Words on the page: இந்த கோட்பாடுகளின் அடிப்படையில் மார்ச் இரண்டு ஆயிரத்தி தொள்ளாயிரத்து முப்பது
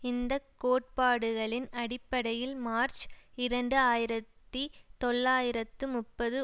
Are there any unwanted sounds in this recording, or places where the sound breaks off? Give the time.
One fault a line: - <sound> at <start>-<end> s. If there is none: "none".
none